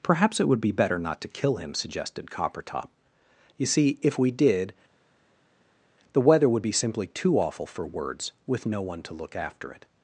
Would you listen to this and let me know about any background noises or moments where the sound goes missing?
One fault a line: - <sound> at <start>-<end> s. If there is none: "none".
none